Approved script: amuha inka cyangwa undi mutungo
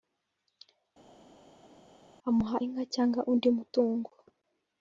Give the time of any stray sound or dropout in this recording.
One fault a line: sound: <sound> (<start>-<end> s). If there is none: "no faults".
no faults